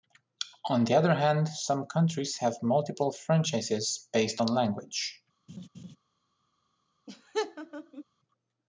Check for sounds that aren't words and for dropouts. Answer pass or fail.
fail